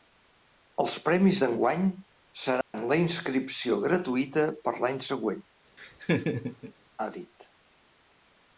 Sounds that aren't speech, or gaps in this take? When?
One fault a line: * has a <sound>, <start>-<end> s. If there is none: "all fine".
* has a dropout, 2.6-2.7 s
* has a laugh, 5.8-6.7 s